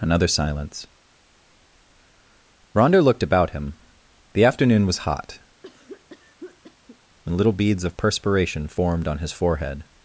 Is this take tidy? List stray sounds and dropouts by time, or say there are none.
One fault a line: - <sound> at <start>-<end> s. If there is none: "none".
- cough at 5.6-7.0 s